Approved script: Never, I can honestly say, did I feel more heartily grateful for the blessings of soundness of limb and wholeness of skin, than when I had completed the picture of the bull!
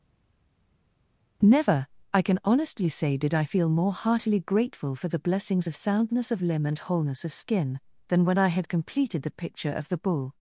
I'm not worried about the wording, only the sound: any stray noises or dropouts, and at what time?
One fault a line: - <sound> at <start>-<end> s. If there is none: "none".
none